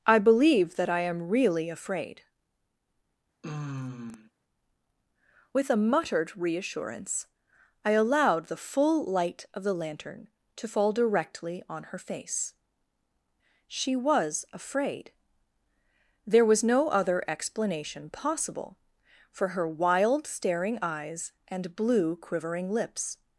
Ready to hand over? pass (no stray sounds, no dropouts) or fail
fail